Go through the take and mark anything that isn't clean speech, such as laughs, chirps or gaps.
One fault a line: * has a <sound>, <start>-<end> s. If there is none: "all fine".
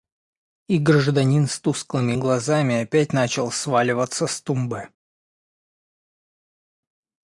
all fine